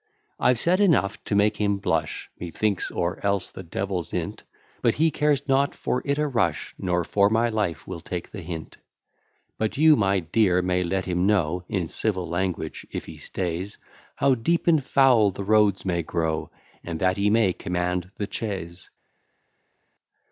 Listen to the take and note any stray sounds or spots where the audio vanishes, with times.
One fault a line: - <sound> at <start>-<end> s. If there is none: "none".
none